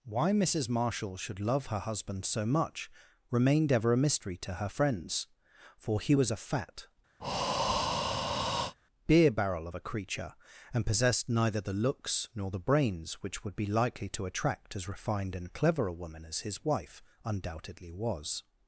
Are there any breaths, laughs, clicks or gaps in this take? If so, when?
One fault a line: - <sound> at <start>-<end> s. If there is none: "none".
- breath at 7.2-8.7 s